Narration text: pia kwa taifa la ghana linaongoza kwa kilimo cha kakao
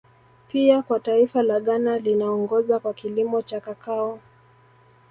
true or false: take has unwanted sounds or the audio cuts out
false